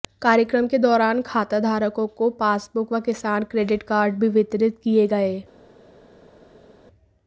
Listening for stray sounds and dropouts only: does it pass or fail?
pass